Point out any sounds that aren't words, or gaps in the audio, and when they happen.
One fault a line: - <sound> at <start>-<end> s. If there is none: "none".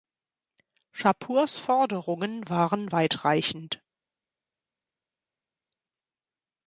none